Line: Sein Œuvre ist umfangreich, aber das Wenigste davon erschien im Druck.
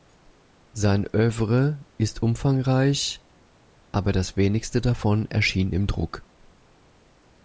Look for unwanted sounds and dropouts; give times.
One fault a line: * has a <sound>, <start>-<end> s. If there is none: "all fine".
all fine